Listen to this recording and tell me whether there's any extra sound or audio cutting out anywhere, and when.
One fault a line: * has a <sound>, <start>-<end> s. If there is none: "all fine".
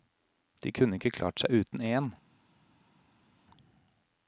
all fine